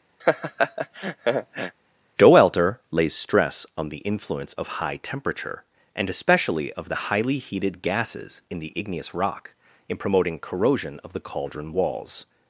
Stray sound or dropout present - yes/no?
yes